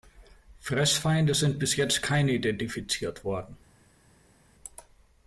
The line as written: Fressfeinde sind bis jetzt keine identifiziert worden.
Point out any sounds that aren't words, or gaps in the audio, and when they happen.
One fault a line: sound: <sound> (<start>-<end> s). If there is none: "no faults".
no faults